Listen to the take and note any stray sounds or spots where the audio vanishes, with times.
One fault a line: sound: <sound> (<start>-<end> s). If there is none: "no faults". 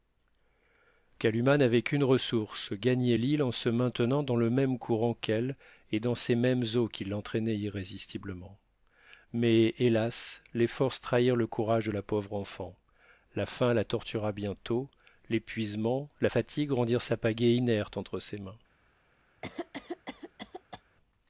sound: cough (19.4-20.8 s)